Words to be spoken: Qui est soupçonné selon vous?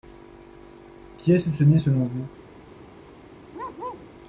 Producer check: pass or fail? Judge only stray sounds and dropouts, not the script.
fail